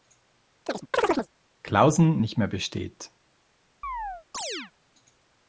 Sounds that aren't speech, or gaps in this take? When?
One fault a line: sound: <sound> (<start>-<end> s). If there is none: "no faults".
sound: chirp (0.7-1.3 s)
sound: chirp (3.8-4.7 s)